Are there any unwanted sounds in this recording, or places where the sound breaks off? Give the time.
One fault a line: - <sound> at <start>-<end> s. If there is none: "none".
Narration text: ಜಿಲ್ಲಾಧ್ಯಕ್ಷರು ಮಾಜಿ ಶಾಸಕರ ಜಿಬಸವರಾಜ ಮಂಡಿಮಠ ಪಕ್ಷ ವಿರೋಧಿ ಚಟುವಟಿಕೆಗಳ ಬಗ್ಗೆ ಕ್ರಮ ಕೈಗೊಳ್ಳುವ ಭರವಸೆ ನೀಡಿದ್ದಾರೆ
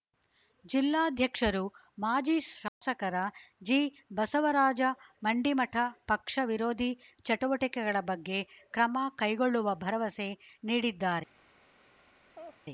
- dropout at 2.7-2.8 s
- laugh at 12.3-12.6 s